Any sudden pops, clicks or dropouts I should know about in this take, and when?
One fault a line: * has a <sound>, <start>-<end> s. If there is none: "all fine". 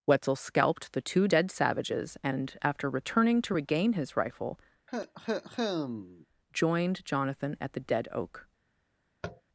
* has a cough, 4.9-6.3 s
* has a tap, 9.2-9.4 s